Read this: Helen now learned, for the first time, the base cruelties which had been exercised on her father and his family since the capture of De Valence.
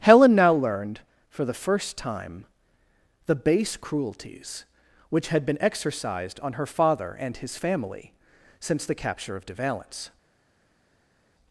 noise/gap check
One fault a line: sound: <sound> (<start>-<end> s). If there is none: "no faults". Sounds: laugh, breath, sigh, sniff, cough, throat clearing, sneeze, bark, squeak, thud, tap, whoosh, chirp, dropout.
no faults